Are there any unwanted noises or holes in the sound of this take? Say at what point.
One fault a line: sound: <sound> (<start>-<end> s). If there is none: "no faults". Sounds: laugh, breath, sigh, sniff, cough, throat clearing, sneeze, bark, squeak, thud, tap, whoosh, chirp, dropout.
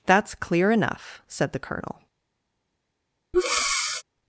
sound: breath (3.3-4.0 s)